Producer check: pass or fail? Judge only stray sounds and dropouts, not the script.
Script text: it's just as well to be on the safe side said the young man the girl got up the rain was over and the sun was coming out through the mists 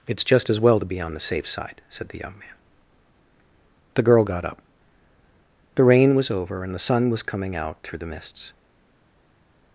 pass